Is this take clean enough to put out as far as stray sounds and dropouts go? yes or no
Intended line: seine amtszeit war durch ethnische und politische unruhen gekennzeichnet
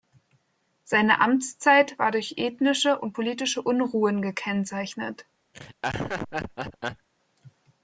no